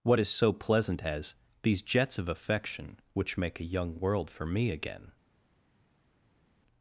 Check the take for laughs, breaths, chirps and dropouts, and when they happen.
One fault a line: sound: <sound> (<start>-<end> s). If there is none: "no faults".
no faults